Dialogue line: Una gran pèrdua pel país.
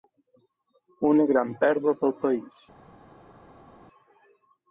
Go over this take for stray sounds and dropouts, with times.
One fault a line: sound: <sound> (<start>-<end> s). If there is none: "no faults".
no faults